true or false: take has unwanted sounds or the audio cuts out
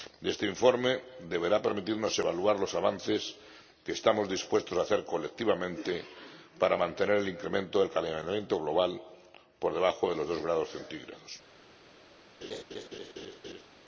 true